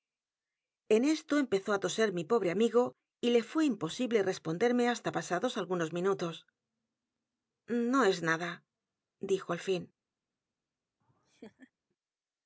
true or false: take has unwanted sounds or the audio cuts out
true